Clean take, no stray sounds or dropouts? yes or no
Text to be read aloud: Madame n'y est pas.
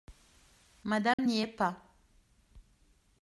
no